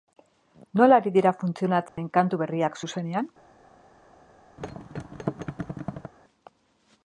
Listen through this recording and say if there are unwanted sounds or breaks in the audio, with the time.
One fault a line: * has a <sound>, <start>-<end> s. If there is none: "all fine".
* has a dropout, 1.9-2.0 s
* has a thud, 4.6-6.1 s